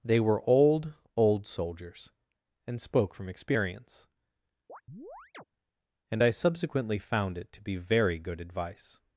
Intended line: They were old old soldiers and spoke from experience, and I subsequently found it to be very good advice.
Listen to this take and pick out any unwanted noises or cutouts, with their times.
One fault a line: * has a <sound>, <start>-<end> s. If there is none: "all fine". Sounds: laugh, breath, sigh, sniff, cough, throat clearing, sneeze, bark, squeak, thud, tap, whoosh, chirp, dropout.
* has a chirp, 4.7-5.4 s